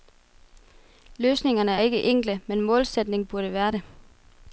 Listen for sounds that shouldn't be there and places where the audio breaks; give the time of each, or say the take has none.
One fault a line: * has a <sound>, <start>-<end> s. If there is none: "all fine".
all fine